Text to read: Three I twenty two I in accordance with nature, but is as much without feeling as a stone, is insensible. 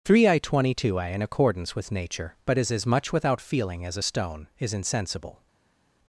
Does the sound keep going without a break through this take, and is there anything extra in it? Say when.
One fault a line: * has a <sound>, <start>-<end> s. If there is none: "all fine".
all fine